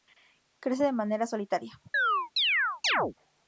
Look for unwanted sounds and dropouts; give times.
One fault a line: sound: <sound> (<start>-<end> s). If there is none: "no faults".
sound: chirp (1.9-3.1 s)